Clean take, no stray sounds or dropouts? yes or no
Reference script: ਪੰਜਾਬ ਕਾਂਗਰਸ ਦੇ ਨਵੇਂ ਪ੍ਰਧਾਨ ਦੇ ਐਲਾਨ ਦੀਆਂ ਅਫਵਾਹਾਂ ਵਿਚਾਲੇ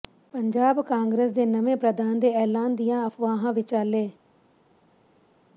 yes